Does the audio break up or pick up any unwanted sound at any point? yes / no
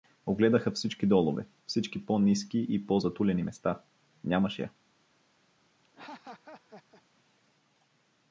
yes